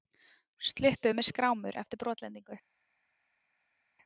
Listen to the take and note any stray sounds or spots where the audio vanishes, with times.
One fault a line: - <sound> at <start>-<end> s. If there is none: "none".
none